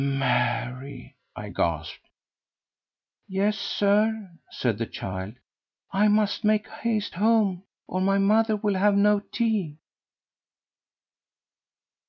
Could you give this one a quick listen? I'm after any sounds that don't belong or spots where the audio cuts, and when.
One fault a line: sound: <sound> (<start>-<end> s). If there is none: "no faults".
no faults